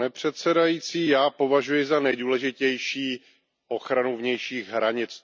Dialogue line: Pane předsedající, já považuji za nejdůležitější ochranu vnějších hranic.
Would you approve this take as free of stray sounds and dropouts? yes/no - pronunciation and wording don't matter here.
yes